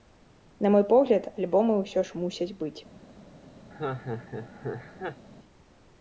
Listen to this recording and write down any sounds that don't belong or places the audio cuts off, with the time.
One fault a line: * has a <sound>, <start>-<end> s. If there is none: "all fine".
* has a laugh, 3.7-5.2 s